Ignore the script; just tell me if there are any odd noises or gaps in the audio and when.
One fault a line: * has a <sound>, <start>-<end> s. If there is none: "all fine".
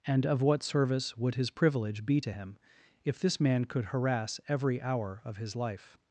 all fine